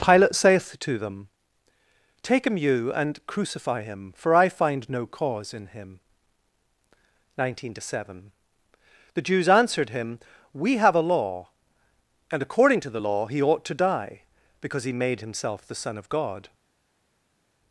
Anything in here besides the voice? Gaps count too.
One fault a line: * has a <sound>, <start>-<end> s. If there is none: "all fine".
all fine